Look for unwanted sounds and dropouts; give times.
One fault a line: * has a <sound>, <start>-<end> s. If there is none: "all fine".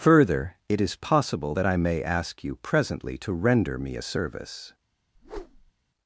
* has a whoosh, 5.1-5.7 s